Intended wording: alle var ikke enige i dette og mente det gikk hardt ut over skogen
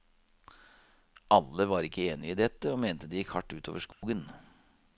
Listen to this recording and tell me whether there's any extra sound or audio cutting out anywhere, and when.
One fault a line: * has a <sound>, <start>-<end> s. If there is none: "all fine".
* has a dropout, 3.9-4.0 s